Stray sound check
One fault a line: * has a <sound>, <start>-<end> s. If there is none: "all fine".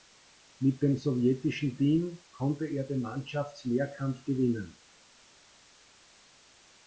all fine